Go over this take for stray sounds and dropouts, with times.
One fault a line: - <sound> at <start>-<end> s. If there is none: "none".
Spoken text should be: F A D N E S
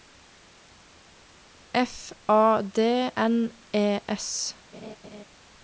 - laugh at 4.7-5.2 s